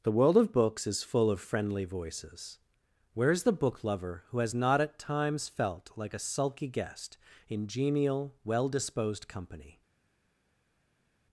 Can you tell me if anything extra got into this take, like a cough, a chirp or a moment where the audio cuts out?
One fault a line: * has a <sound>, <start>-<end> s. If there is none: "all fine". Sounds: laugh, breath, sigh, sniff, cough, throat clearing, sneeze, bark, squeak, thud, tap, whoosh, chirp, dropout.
all fine